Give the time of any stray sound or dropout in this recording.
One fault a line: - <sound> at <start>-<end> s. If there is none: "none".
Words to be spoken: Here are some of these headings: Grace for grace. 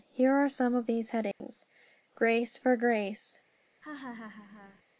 - dropout at 1.3-1.4 s
- laugh at 3.8-4.8 s